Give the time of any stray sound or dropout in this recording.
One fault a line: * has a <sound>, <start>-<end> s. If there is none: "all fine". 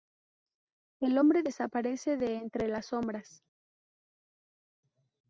all fine